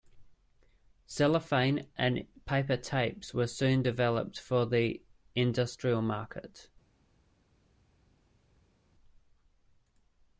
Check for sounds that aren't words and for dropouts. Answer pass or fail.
pass